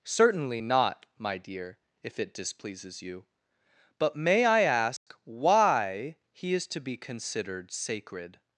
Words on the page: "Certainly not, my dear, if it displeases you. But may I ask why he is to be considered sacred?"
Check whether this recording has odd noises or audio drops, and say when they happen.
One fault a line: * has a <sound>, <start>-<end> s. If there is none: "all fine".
* has a dropout, 5.0-5.1 s